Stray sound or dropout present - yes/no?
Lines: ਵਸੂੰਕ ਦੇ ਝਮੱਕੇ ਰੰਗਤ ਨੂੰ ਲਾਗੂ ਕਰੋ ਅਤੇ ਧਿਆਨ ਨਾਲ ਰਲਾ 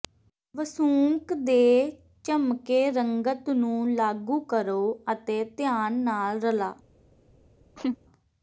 yes